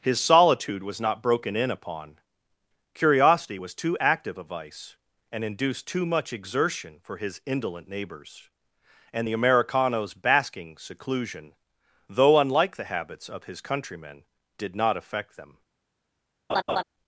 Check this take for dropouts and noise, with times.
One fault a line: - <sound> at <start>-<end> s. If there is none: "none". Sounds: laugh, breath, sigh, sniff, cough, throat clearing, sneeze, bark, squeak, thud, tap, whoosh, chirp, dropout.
- laugh at 16.5-16.8 s